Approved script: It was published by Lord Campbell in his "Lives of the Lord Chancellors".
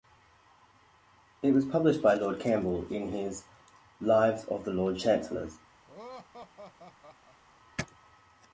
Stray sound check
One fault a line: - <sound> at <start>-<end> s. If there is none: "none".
- laugh at 5.9-7.4 s